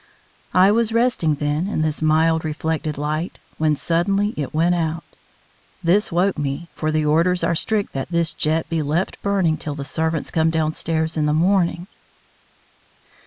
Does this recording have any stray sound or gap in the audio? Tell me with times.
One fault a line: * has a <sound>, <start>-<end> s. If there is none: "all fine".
all fine